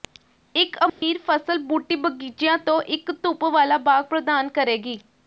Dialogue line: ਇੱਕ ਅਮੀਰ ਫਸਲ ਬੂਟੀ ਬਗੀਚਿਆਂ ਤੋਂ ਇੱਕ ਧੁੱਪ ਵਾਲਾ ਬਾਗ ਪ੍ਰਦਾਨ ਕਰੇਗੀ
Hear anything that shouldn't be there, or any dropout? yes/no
yes